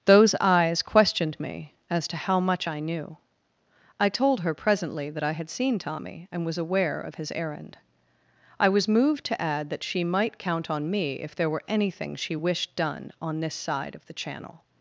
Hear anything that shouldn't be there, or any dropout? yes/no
no